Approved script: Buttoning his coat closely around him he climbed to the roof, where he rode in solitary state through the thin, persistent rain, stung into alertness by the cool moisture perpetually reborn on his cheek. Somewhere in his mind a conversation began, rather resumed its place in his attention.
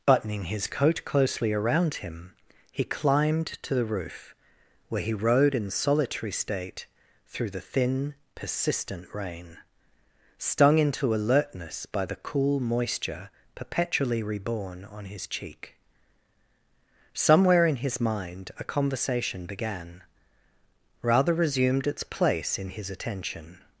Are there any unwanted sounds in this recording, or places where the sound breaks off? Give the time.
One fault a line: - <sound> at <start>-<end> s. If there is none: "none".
none